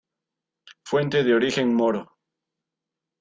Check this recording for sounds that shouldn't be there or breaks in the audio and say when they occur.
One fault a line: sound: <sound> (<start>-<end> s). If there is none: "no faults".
no faults